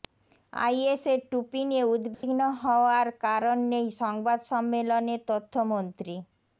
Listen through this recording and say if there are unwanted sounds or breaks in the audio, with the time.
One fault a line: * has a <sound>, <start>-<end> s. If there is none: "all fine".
* has a dropout, 2.1-2.2 s